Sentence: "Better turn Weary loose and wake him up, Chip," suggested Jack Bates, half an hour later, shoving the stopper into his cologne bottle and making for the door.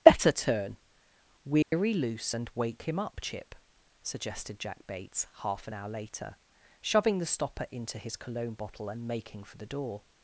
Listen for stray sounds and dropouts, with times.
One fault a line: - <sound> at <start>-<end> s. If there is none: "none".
- dropout at 1.6-1.7 s